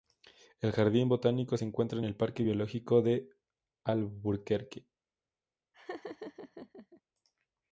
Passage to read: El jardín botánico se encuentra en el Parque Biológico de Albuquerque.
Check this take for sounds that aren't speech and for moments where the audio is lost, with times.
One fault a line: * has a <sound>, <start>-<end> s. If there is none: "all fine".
* has a laugh, 5.7-7.0 s